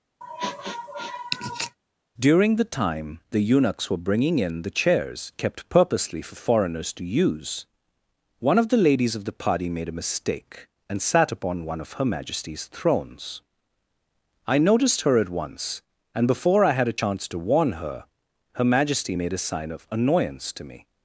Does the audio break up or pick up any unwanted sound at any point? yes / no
yes